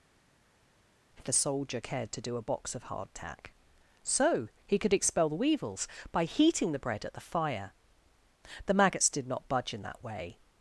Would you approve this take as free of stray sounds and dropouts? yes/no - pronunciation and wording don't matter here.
yes